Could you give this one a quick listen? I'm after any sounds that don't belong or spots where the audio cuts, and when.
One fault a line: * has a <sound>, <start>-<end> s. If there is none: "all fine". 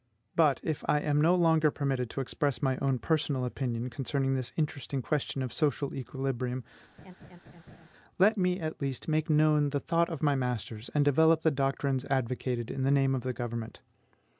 * has a laugh, 7.0-7.9 s